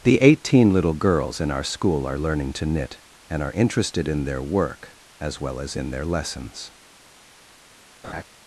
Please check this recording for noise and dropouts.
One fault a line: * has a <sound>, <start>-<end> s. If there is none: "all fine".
* has a laugh, 8.0-8.2 s